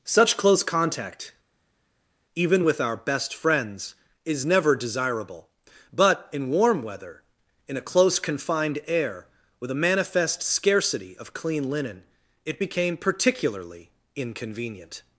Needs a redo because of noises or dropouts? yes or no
no